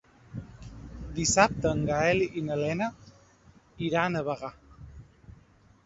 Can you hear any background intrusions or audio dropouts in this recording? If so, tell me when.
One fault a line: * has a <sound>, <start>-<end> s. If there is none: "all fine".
all fine